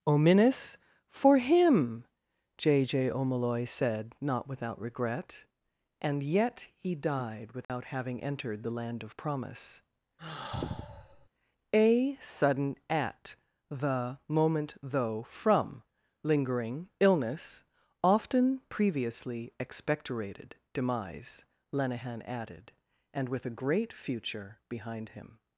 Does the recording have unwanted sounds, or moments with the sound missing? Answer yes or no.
yes